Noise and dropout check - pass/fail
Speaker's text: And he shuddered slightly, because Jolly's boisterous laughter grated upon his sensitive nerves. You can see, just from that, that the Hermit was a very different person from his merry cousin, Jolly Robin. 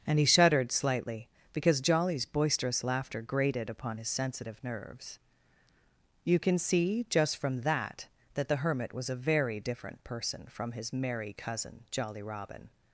pass